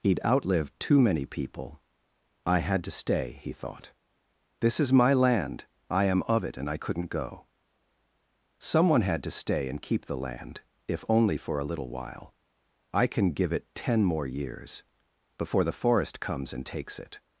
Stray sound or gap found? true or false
false